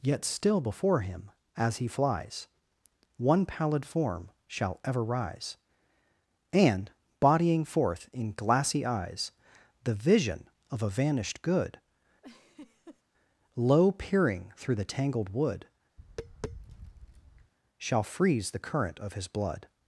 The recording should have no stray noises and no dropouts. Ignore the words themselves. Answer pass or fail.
fail